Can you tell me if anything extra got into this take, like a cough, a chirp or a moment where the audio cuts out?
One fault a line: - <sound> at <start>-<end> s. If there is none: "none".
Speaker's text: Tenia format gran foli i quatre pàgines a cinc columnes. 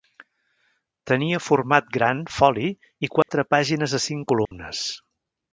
- dropout at 3.2-3.3 s
- dropout at 4.4-4.5 s